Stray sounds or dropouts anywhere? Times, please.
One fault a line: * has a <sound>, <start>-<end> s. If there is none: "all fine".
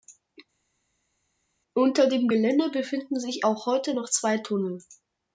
all fine